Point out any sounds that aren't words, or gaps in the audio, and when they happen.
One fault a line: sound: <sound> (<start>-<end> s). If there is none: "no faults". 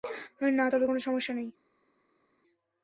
no faults